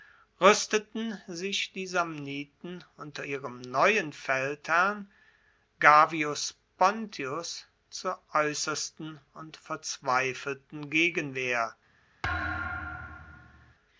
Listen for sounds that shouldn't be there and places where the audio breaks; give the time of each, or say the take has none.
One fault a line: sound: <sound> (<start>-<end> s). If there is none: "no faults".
sound: thud (12.2-13.7 s)